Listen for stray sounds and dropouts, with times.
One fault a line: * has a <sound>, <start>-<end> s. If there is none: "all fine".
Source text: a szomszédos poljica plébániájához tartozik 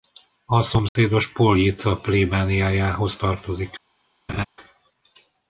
* has a dropout, 0.9-1.0 s
* has a laugh, 4.3-4.4 s